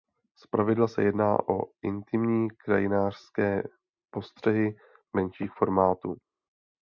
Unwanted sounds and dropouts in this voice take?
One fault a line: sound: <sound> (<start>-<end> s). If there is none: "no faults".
no faults